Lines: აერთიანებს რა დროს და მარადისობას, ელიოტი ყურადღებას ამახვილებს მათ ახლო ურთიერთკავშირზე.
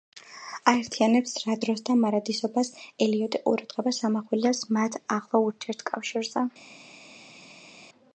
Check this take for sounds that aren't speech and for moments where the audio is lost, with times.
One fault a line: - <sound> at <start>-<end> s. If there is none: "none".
none